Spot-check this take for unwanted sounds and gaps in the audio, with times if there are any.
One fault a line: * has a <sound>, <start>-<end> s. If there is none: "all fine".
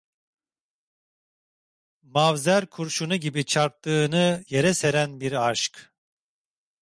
all fine